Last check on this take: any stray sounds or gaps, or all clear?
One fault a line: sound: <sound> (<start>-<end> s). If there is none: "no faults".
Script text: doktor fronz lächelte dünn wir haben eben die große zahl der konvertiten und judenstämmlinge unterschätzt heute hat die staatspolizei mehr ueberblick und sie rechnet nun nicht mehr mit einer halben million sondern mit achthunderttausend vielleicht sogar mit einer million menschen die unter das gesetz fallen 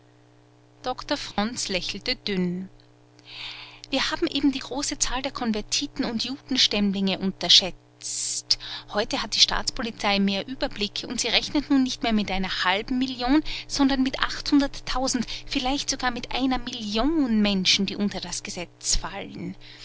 sound: dropout (1.3-1.4 s)